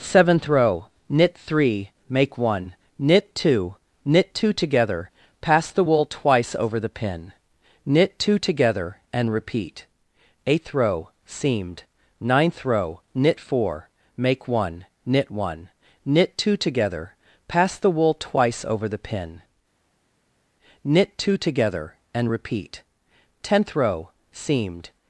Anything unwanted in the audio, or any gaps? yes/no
no